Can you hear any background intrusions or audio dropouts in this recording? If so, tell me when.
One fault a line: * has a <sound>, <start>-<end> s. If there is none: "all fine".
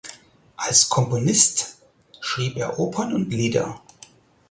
all fine